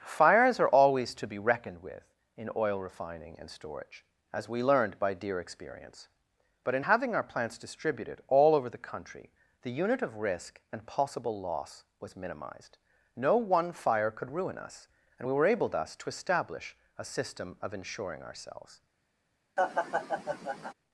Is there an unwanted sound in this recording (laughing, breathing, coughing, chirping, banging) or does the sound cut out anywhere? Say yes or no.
yes